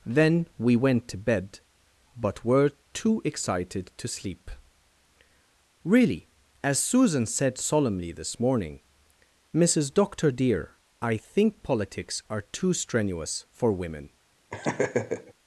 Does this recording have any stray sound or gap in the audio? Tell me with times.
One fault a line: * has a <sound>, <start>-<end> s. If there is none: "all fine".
* has a laugh, 14.5-15.3 s